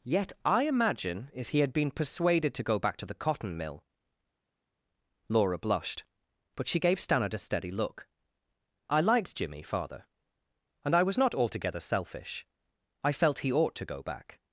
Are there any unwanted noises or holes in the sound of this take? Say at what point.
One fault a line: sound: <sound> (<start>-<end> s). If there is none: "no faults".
no faults